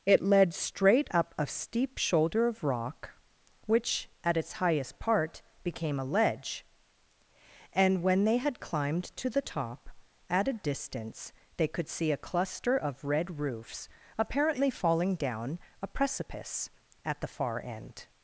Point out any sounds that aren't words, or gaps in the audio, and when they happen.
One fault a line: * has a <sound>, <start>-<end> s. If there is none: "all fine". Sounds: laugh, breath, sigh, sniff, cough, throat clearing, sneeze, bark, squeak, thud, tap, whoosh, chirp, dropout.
all fine